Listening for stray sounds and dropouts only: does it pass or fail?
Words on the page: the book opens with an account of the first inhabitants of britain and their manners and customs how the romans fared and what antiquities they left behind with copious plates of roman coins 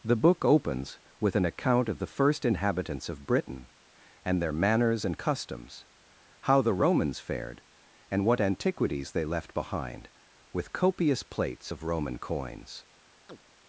fail